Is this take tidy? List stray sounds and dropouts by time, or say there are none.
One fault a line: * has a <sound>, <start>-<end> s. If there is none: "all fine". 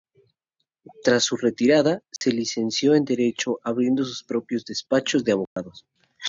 * has a dropout, 2.2-2.2 s
* has a dropout, 5.5-5.6 s